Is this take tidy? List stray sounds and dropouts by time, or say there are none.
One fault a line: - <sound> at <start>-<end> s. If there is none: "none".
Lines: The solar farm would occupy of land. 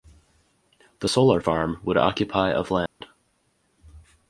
- dropout at 2.9-3.0 s